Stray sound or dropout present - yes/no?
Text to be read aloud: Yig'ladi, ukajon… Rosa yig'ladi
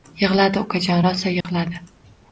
yes